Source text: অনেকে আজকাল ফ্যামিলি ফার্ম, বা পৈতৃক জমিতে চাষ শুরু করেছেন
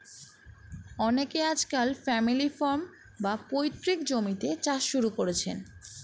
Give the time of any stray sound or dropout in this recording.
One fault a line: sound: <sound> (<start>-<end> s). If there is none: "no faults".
no faults